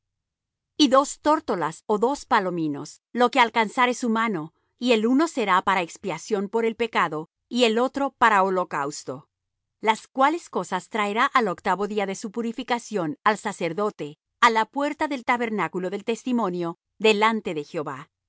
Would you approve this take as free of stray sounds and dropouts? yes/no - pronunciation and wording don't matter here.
yes